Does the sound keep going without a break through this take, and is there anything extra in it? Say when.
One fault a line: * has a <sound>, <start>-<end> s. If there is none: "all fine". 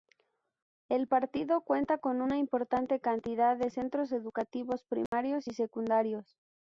* has a dropout, 5.1-5.1 s